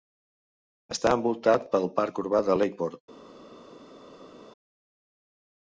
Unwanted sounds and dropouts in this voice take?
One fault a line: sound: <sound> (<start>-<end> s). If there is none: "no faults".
no faults